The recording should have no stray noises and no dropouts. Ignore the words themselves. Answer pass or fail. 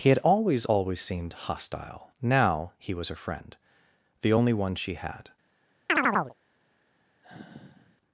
fail